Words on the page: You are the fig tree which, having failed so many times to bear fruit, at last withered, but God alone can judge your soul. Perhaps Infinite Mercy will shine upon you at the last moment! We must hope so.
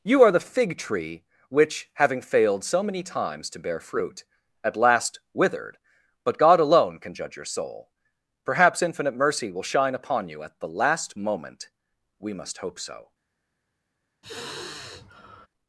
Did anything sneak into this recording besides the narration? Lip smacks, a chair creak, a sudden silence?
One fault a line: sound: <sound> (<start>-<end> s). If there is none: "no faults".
sound: sigh (14.2-15.5 s)